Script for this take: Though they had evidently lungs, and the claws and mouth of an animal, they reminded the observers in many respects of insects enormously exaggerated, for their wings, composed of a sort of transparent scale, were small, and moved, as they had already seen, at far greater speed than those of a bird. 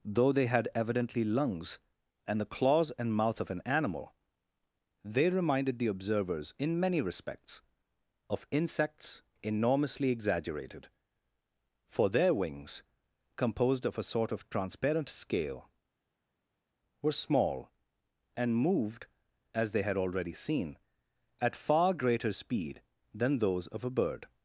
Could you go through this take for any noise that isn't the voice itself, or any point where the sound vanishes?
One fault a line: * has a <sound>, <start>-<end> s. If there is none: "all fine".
all fine